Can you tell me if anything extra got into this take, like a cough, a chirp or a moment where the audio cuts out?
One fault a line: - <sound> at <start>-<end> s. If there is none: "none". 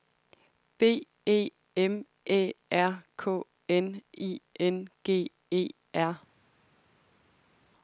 none